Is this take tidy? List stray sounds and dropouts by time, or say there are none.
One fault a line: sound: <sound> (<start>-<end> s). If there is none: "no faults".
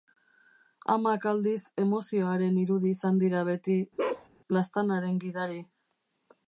sound: bark (4.0-4.3 s)